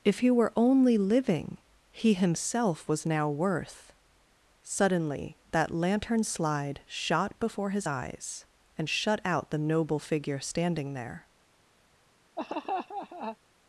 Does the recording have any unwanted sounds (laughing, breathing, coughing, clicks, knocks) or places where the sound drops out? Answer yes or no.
yes